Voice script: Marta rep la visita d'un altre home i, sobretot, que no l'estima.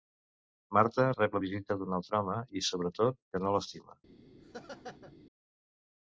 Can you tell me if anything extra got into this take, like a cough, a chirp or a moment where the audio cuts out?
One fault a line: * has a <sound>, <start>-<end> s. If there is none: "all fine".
* has a laugh, 4.4-5.2 s